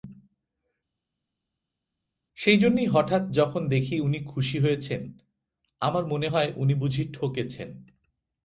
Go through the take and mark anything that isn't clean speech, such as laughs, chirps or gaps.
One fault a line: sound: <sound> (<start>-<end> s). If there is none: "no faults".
no faults